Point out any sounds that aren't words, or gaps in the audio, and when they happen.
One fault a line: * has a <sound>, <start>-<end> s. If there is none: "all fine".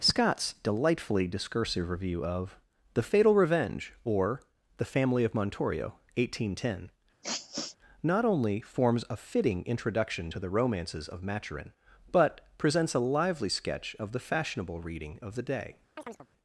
* has a sniff, 7.2-7.8 s
* has a chirp, 16.0-16.3 s